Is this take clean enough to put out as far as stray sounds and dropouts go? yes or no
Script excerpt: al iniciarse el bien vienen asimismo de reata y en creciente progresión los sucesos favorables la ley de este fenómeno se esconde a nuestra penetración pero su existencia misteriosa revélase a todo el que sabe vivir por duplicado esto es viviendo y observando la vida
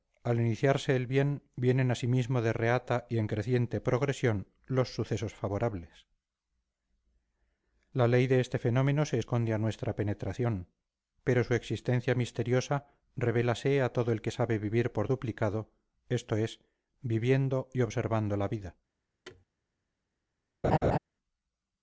no